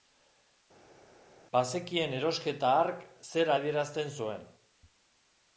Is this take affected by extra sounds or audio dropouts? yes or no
no